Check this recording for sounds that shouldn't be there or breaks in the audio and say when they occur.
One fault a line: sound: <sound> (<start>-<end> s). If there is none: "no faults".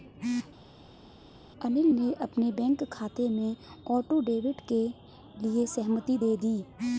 no faults